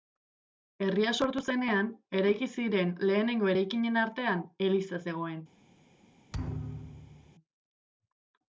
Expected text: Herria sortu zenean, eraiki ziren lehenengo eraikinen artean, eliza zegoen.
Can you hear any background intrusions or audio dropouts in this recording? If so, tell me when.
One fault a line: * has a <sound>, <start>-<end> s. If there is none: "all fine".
* has a thud, 6.3-7.4 s